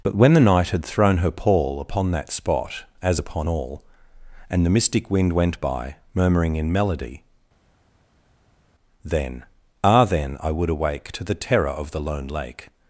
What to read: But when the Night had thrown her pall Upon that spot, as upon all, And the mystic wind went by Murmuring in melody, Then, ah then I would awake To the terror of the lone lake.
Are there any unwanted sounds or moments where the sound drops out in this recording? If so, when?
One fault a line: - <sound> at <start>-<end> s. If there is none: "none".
none